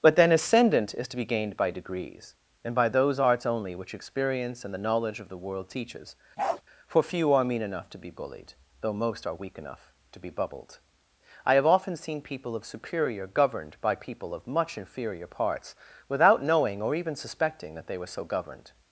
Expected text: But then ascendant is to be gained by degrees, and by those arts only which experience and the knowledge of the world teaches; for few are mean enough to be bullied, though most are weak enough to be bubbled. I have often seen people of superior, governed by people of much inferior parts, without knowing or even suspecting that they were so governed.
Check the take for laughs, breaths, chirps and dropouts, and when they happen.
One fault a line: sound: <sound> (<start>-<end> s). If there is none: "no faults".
sound: bark (6.4-6.6 s)